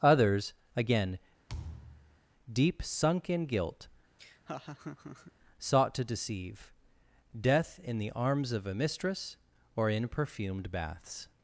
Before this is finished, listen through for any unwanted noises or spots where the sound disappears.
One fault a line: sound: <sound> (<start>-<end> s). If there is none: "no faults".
sound: thud (1.5-2.2 s)
sound: laugh (4.2-5.3 s)